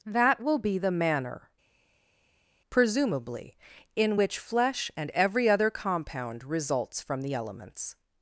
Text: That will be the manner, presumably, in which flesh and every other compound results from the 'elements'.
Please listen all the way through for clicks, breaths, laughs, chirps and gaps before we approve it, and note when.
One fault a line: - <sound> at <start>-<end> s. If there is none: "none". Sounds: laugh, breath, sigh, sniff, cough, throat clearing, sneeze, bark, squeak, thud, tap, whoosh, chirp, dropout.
none